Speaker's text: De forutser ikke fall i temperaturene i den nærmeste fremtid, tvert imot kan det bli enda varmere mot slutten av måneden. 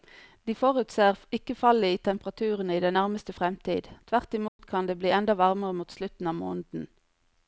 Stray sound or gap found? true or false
true